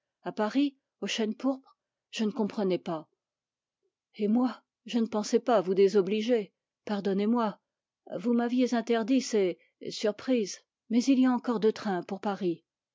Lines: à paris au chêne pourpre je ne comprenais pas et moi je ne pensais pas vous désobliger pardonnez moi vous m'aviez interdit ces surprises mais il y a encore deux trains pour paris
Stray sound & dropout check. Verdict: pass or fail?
pass